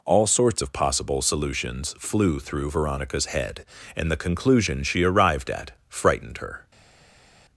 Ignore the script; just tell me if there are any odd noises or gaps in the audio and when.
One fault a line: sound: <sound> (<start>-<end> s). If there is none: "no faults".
no faults